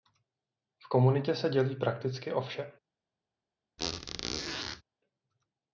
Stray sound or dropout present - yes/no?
yes